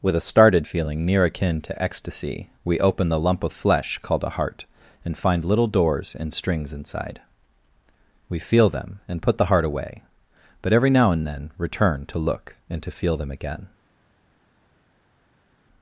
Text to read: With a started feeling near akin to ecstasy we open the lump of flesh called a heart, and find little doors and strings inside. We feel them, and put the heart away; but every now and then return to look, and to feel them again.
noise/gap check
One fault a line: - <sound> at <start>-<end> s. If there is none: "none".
none